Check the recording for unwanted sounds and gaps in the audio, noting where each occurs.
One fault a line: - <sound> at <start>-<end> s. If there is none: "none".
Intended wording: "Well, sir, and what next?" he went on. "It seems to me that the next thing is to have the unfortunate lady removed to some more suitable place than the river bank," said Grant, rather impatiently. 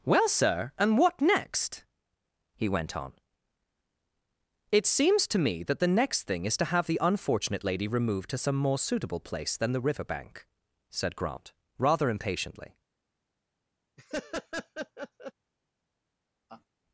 - laugh at 14.0-15.3 s
- laugh at 16.5-16.7 s